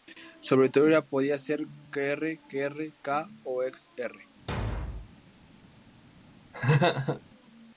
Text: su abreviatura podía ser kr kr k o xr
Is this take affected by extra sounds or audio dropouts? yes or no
yes